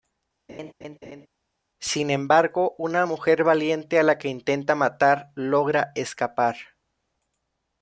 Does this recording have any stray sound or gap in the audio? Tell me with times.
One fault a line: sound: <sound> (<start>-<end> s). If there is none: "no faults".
sound: laugh (0.5-1.3 s)